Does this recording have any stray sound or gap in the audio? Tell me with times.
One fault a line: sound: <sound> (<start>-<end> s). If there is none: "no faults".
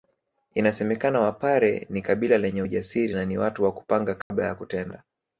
sound: dropout (4.2-4.3 s)